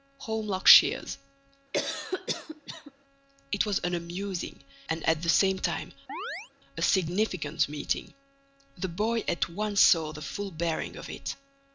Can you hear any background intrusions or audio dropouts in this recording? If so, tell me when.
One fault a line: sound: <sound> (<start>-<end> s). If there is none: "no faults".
sound: cough (1.7-2.9 s)
sound: chirp (6.1-6.5 s)